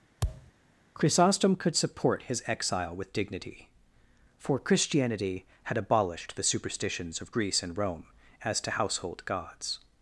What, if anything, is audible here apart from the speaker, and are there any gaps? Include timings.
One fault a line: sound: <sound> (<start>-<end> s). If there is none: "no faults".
sound: thud (0.2-0.5 s)